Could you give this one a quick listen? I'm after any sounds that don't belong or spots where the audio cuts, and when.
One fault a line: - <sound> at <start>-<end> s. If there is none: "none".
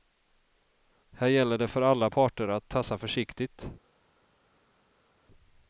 none